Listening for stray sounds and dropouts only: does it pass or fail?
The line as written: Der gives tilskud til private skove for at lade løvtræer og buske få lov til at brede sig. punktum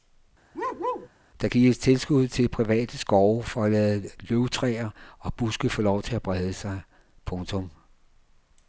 fail